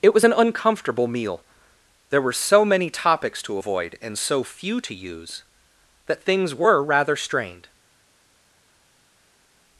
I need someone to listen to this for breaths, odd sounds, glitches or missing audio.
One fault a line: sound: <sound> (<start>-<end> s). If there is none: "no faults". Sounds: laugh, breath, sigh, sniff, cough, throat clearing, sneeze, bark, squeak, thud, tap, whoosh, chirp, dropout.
no faults